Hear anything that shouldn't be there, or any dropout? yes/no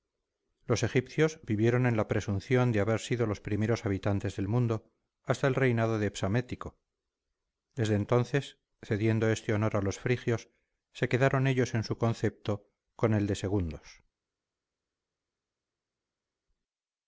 no